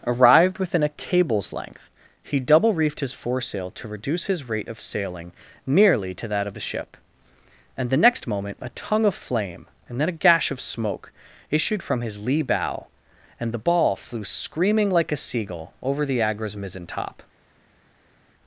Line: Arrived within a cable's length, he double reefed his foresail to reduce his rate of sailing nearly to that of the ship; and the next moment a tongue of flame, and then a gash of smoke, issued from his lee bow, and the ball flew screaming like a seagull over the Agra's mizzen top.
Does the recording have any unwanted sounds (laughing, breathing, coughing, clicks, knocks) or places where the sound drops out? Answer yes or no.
no